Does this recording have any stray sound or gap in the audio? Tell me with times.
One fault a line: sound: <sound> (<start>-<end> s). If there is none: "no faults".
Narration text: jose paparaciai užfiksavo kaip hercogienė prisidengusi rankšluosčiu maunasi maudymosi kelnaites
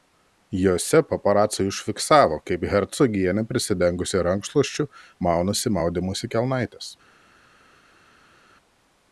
no faults